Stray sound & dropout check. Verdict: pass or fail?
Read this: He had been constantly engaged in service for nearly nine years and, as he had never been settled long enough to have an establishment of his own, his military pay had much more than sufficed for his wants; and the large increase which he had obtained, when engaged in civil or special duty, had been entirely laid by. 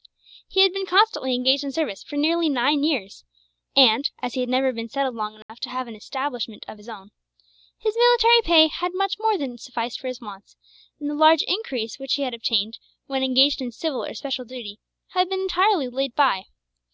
fail